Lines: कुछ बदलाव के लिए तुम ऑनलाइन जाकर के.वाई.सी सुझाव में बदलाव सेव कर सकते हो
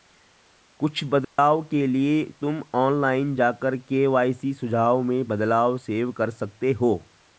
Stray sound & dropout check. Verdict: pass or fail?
fail